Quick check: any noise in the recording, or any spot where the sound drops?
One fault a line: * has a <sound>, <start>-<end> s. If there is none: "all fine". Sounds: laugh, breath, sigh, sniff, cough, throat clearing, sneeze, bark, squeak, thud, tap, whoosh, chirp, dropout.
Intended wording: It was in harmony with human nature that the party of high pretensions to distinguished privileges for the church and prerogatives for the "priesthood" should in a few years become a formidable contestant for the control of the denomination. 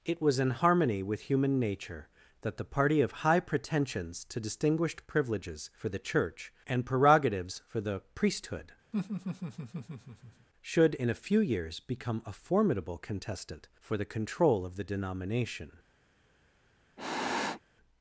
* has a laugh, 8.9-10.5 s
* has a sniff, 17.0-17.6 s